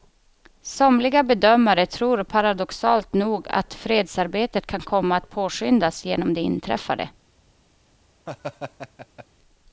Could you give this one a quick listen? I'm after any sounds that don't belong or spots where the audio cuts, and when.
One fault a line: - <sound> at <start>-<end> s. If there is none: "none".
- laugh at 8.3-9.3 s